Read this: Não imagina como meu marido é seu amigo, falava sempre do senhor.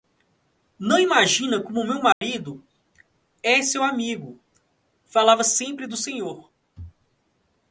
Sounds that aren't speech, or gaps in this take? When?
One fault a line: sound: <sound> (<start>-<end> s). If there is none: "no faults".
sound: dropout (2.1-2.2 s)